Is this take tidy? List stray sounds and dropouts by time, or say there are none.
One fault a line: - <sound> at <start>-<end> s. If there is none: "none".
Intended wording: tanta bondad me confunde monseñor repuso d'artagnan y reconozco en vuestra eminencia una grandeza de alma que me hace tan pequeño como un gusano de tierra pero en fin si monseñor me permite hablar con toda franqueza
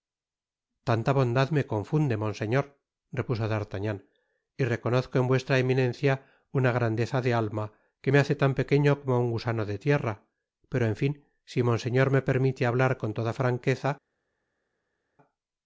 none